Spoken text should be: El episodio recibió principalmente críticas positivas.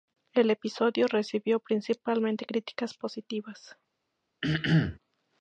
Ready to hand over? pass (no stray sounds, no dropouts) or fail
fail